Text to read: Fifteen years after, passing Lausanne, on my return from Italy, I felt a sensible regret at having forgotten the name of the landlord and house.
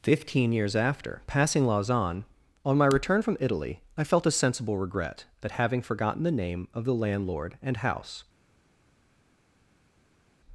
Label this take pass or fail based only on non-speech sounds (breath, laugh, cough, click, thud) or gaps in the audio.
pass